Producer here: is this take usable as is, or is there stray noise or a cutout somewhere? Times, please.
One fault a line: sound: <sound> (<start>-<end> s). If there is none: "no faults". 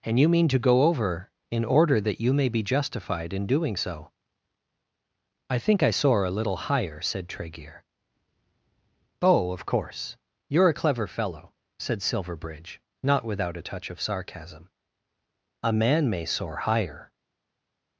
no faults